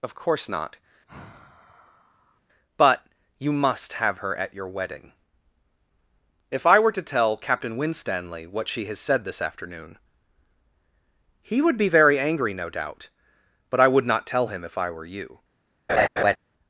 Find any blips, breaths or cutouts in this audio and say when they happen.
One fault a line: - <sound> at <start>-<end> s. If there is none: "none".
- sigh at 1.1-2.4 s
- laugh at 15.9-16.4 s